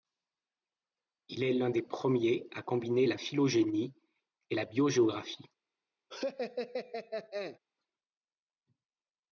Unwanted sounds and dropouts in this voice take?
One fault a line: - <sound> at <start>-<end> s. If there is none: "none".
- laugh at 6.1-7.6 s